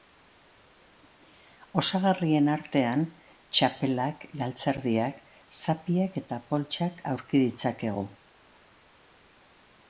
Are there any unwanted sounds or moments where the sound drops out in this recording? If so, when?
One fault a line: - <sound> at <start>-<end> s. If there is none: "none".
none